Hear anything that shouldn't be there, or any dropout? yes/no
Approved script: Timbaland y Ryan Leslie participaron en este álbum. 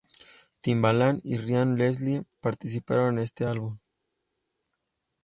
no